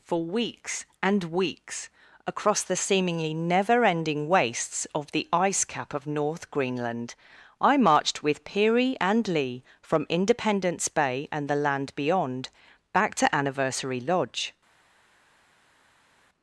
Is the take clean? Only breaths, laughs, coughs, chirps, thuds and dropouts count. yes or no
yes